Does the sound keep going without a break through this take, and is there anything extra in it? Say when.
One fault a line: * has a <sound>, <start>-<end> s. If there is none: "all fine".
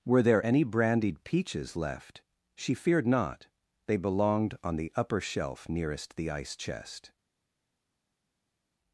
all fine